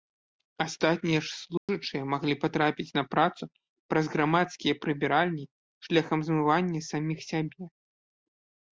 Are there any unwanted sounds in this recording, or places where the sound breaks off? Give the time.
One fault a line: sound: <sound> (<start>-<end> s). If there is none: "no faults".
sound: dropout (1.6-1.7 s)